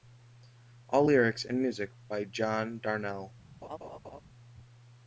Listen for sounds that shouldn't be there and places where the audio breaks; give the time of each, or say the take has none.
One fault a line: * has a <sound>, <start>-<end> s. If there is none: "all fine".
* has a laugh, 3.6-4.2 s